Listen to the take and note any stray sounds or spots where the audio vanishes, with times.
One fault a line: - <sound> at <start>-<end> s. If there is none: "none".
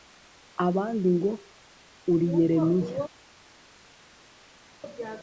none